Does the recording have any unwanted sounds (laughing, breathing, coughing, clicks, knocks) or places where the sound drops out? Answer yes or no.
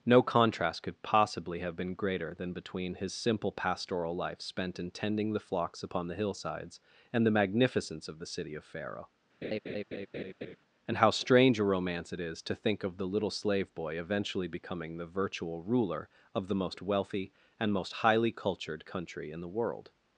yes